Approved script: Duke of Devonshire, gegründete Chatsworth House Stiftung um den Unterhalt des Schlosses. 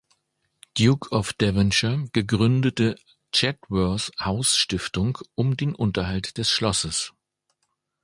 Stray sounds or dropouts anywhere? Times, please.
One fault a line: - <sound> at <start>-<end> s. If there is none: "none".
none